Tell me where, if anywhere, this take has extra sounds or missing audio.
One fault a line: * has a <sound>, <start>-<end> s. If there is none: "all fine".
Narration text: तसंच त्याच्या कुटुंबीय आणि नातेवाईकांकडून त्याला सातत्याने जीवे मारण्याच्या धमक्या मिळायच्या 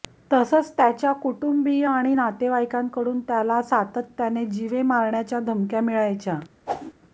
* has a whoosh, 6.7-6.9 s